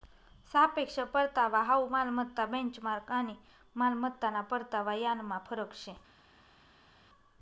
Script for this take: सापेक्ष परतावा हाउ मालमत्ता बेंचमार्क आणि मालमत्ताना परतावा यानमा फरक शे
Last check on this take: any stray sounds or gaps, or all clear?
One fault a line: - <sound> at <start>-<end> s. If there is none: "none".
none